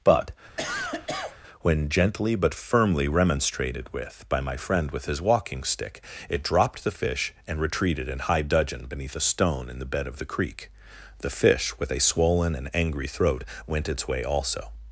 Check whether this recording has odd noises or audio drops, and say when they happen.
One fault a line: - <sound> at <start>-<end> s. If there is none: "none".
- cough at 0.6-1.4 s